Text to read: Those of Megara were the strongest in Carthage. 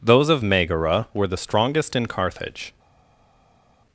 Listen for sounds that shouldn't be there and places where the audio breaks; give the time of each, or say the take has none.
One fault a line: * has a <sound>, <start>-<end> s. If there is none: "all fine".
all fine